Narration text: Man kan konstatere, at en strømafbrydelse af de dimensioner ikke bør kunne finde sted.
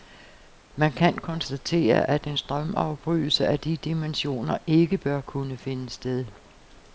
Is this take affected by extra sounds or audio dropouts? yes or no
no